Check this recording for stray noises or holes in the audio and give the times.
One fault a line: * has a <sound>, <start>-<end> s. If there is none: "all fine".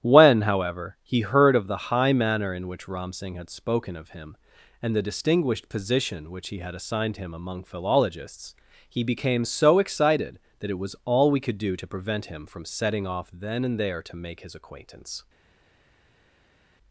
all fine